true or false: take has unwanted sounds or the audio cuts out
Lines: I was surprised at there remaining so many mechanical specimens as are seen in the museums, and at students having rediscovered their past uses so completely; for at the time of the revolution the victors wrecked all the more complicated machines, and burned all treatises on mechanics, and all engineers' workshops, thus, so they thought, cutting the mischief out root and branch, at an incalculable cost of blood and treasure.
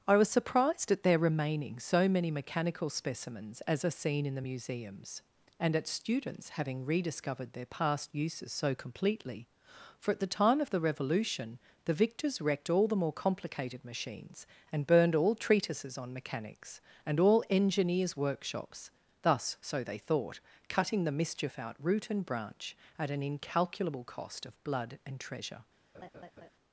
true